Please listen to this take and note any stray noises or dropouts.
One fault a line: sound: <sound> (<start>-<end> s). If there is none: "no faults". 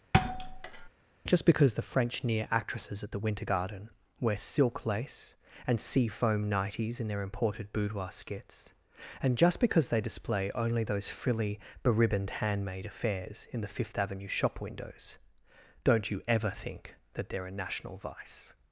sound: thud (0.1-0.9 s)